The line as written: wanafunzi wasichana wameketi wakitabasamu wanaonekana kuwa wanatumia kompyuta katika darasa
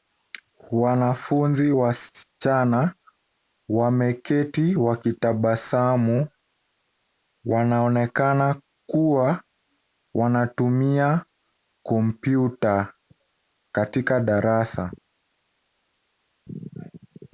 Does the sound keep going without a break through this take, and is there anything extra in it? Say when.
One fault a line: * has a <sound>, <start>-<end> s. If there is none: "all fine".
all fine